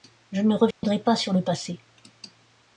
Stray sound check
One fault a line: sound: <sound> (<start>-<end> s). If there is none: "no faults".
sound: dropout (0.7-0.8 s)